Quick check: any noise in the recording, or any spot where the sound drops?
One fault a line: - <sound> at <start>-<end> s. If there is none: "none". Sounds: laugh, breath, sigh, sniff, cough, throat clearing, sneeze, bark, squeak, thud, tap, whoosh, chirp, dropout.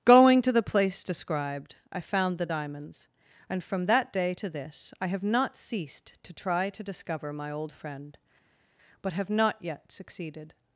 none